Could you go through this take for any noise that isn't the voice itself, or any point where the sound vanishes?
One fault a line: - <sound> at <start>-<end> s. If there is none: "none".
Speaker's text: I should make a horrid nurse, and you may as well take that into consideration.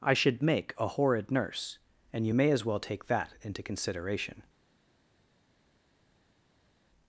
none